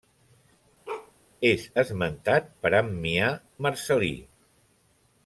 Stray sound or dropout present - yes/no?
yes